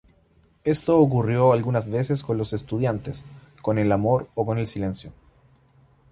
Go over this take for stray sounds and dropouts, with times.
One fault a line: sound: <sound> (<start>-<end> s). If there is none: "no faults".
no faults